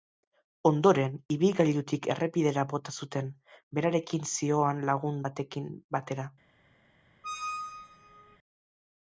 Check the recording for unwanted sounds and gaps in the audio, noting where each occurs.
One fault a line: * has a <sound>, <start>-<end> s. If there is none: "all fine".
* has a squeak, 7.2-8.4 s